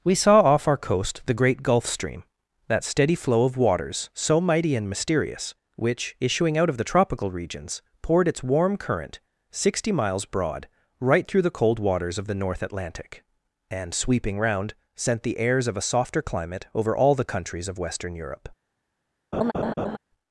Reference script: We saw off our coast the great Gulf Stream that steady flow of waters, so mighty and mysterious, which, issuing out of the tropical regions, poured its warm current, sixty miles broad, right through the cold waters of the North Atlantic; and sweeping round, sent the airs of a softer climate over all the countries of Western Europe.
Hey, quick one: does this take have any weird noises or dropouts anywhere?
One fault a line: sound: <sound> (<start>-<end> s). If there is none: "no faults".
sound: laugh (19.3-20.0 s)